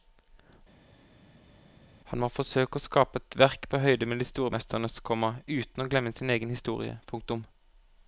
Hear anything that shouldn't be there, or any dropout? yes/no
no